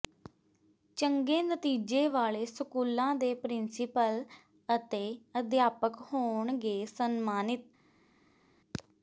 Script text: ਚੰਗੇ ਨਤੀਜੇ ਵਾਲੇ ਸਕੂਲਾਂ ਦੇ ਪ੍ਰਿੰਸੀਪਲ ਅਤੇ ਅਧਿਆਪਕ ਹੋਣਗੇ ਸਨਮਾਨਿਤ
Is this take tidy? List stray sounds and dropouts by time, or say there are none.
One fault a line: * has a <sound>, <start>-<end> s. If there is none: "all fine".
all fine